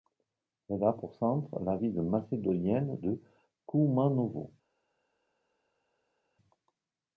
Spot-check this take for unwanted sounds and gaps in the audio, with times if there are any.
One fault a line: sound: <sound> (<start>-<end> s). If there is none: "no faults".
no faults